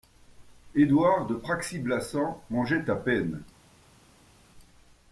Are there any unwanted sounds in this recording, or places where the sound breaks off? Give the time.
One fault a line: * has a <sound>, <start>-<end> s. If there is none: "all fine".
all fine